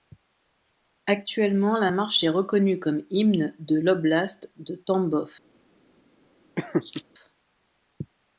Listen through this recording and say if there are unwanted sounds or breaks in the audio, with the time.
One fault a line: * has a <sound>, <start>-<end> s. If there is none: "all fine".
* has a laugh, 6.6-7.0 s